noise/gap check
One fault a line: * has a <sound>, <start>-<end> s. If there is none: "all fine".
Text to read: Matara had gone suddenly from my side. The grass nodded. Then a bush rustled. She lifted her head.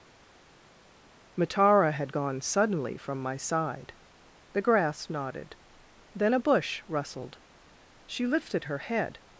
all fine